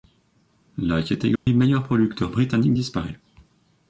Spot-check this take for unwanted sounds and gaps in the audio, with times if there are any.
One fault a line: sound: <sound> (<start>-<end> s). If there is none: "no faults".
sound: dropout (1.4-1.5 s)